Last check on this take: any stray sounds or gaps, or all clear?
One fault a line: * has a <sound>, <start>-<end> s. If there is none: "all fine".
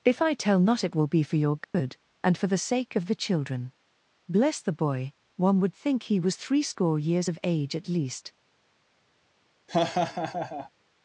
* has a dropout, 1.6-1.7 s
* has a laugh, 9.7-10.7 s